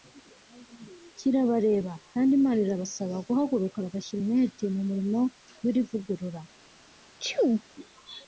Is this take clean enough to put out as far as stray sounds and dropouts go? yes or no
no